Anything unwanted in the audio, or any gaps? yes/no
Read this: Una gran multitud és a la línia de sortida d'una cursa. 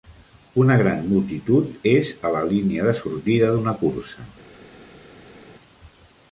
no